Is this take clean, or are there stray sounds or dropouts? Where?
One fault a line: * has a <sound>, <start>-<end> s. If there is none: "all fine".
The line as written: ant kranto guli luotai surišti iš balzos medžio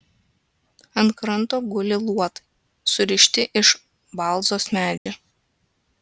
* has a dropout, 5.0-5.1 s